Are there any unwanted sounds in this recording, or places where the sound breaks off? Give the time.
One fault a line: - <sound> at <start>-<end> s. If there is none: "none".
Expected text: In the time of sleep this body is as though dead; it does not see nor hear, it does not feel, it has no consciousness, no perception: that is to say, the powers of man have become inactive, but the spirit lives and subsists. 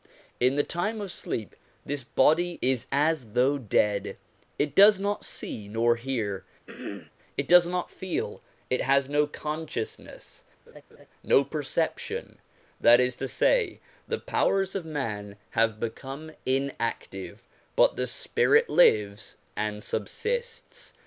- throat clearing at 6.7-7.1 s
- laugh at 10.7-11.1 s